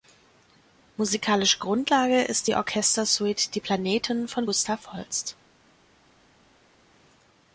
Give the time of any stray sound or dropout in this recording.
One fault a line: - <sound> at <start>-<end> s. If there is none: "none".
none